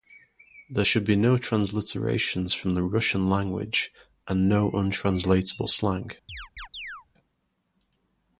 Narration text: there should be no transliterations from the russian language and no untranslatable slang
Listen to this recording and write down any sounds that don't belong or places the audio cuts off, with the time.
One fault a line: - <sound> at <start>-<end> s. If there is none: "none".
- chirp at 6.3-7.1 s